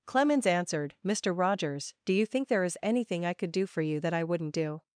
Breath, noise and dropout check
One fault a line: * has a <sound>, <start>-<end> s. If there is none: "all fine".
all fine